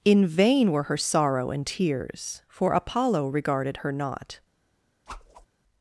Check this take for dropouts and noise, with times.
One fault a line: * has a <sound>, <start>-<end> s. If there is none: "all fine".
* has a whoosh, 5.1-5.5 s